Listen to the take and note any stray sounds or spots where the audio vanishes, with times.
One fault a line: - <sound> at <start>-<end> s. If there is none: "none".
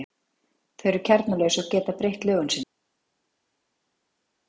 none